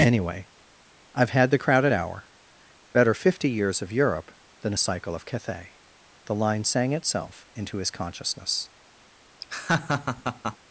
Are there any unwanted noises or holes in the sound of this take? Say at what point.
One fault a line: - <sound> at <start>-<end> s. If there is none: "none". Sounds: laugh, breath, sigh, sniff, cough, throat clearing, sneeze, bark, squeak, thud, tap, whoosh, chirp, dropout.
- laugh at 9.4-10.6 s